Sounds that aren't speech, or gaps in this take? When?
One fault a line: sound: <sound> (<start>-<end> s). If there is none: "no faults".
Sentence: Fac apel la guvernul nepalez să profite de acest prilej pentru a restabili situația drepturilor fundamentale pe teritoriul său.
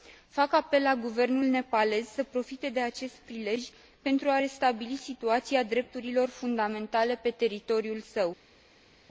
no faults